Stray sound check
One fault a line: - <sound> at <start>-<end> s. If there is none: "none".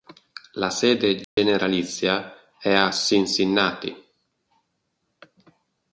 - dropout at 1.2-1.4 s